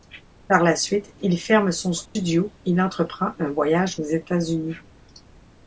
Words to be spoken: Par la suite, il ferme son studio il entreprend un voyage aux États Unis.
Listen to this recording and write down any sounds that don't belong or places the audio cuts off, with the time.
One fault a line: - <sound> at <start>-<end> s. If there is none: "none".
- dropout at 2.1-2.2 s